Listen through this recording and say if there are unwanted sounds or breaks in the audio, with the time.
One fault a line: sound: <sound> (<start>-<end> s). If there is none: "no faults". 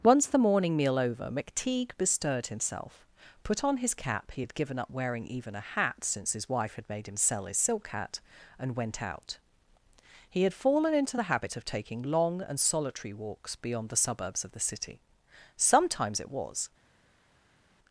no faults